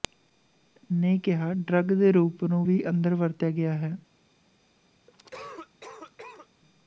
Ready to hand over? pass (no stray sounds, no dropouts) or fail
fail